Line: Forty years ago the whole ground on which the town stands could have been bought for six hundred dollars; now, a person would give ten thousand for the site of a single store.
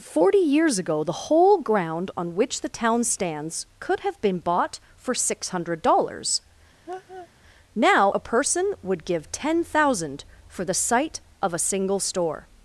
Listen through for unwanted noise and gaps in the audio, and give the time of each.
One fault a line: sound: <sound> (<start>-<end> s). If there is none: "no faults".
sound: laugh (6.9-7.3 s)